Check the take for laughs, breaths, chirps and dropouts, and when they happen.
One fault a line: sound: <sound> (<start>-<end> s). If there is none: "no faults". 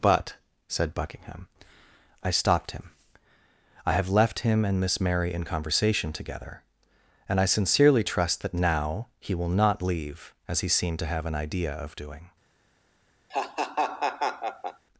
sound: laugh (13.3-14.8 s)